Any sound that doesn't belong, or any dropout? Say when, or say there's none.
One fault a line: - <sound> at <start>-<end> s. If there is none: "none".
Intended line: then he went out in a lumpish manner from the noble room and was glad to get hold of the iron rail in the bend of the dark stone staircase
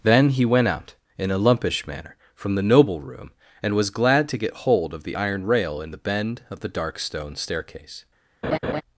- laugh at 8.4-8.8 s